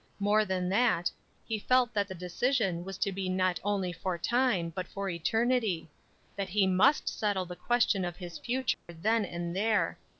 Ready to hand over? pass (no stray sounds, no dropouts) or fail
fail